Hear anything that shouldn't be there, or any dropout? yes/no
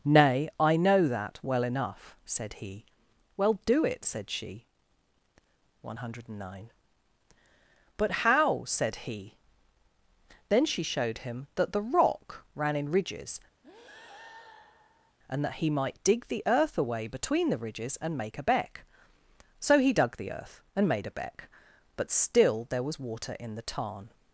yes